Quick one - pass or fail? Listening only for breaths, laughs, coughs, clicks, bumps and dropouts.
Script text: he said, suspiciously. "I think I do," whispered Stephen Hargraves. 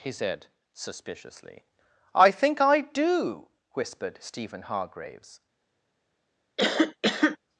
fail